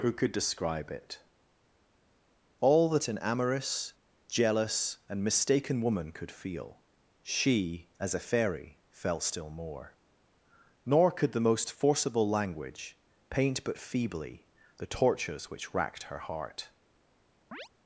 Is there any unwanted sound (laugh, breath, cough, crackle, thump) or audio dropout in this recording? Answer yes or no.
yes